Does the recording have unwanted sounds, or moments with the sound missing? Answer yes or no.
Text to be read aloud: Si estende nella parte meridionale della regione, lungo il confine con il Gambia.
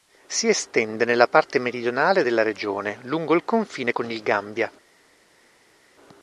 no